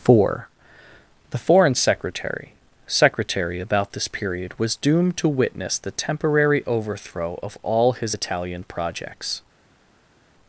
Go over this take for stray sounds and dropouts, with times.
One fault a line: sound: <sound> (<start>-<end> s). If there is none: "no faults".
no faults